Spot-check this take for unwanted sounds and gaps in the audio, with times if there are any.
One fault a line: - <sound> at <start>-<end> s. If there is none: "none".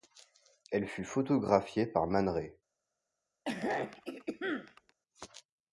- throat clearing at 3.5-4.9 s